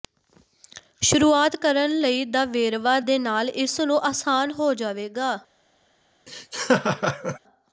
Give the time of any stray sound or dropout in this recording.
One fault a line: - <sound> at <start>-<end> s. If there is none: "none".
- laugh at 6.3-7.4 s